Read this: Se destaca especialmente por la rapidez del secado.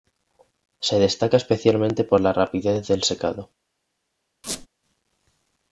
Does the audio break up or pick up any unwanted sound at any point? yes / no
yes